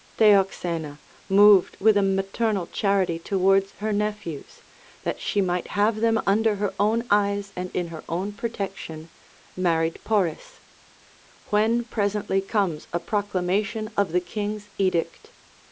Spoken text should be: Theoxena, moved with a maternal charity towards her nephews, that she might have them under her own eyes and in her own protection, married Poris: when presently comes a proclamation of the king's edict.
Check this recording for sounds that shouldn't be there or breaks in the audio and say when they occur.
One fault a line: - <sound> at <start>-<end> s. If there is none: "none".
none